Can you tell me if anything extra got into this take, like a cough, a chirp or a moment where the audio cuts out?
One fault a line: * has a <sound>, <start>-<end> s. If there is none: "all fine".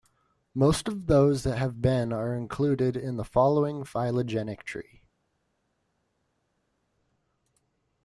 all fine